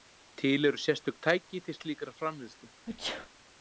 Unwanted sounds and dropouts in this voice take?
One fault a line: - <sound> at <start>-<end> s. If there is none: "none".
- sneeze at 2.9-3.3 s